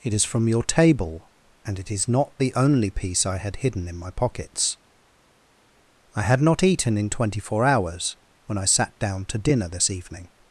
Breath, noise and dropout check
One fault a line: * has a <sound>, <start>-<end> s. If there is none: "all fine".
all fine